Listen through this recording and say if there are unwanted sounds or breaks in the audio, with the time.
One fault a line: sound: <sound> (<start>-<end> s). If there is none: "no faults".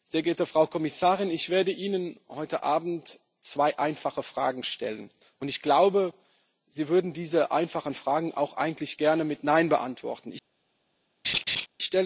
sound: laugh (11.2-11.7 s)